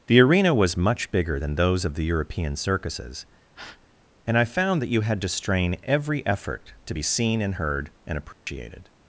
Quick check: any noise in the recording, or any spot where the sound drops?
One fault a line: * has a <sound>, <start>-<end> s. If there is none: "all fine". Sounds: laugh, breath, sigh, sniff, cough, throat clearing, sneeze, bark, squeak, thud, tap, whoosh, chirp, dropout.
* has a breath, 3.5-3.9 s
* has a dropout, 8.3-8.5 s